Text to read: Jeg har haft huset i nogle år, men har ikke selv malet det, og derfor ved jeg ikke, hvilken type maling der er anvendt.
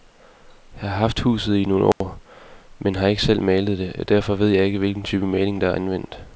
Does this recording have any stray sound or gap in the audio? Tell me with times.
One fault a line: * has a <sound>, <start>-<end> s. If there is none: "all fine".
* has a dropout, 1.9-2.0 s